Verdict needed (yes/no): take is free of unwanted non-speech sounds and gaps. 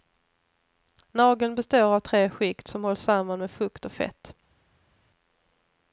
yes